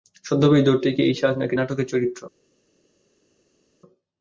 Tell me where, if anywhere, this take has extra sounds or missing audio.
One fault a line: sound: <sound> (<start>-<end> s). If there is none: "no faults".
no faults